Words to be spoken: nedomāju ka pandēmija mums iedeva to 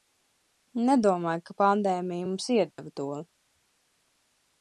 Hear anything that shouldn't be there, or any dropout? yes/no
yes